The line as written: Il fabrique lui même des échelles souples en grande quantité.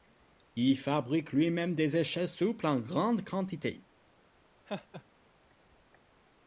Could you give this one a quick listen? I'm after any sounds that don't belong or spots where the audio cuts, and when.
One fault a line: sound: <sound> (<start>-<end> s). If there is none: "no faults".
sound: laugh (4.7-5.0 s)